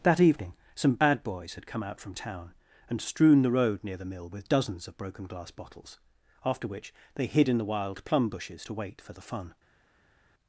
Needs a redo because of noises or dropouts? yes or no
no